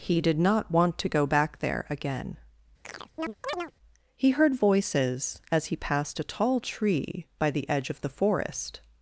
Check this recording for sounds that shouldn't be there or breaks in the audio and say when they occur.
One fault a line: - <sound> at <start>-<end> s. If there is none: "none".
- chirp at 2.8-3.7 s